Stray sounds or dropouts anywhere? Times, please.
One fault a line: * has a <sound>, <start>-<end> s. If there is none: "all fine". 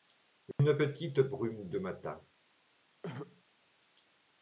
* has a dropout, 0.5-0.6 s
* has a throat clearing, 3.0-3.4 s